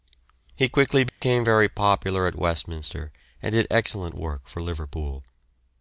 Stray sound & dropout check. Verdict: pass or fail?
fail